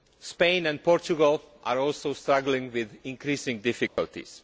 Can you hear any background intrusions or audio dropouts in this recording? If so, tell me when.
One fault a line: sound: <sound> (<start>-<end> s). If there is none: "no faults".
sound: dropout (3.9-4.0 s)